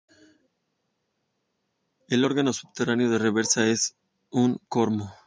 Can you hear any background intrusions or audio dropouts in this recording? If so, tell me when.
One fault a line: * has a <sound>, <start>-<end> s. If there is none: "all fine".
all fine